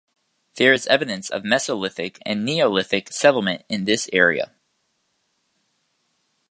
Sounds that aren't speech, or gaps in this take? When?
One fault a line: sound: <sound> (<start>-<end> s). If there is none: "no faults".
no faults